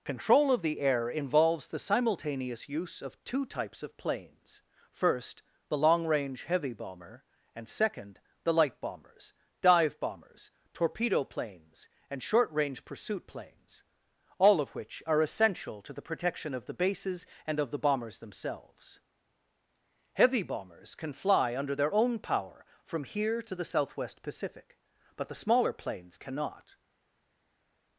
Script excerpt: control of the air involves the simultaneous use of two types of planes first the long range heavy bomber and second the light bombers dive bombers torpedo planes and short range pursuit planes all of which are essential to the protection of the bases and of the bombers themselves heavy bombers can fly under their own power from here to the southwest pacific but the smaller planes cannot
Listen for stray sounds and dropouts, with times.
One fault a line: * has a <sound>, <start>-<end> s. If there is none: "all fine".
all fine